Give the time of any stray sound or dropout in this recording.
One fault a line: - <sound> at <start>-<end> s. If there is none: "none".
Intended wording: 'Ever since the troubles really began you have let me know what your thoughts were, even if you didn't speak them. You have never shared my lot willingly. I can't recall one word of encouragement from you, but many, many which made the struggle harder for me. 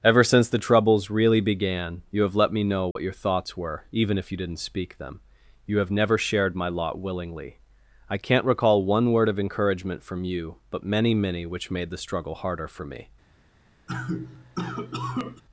- dropout at 2.9-3.0 s
- cough at 13.9-15.4 s